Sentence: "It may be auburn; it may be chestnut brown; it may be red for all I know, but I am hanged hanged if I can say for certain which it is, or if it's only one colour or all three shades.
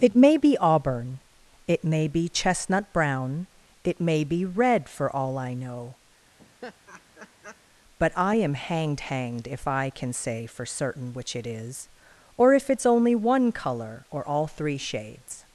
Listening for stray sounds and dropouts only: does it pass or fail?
fail